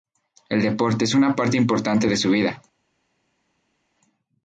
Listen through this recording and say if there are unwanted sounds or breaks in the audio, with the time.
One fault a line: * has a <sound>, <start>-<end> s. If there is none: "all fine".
all fine